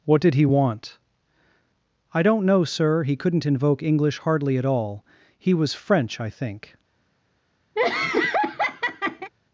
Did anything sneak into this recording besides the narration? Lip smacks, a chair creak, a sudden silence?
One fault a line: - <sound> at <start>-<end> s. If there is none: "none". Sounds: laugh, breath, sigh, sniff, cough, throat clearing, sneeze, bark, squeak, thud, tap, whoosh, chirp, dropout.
- laugh at 7.8-9.3 s